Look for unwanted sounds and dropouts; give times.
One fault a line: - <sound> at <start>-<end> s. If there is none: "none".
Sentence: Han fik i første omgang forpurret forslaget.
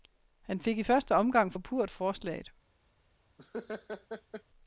- laugh at 3.4-4.4 s